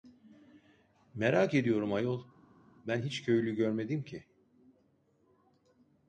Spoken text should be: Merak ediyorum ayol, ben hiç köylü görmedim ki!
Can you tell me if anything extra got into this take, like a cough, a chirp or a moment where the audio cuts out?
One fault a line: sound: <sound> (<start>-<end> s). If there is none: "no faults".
no faults